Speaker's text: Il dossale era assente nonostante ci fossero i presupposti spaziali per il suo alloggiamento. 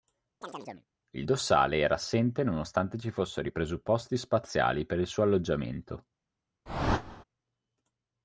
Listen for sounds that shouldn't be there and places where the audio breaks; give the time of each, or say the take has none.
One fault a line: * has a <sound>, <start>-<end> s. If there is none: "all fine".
* has a chirp, 0.4-0.9 s
* has a whoosh, 6.7-7.2 s